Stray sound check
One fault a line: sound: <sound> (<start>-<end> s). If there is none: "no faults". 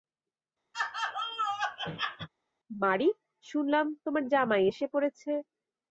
sound: laugh (0.7-2.3 s)